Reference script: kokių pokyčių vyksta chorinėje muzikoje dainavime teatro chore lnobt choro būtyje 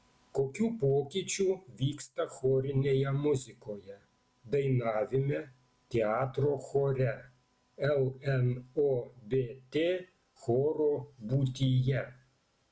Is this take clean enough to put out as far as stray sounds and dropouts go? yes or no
yes